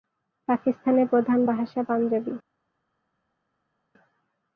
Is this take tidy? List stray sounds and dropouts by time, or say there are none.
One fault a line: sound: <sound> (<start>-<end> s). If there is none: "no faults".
no faults